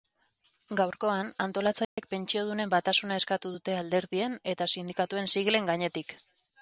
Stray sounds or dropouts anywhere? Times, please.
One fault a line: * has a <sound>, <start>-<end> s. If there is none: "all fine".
* has a dropout, 1.8-2.0 s